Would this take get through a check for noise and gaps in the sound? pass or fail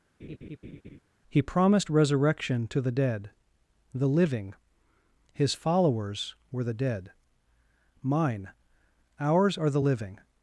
fail